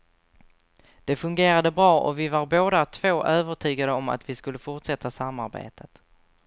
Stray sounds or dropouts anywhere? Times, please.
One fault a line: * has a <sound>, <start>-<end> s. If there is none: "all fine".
all fine